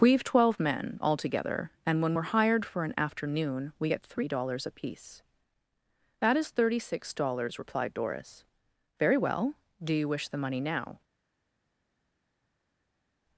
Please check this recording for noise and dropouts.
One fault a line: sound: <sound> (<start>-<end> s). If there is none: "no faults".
no faults